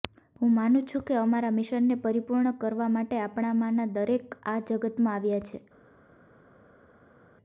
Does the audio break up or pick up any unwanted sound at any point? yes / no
no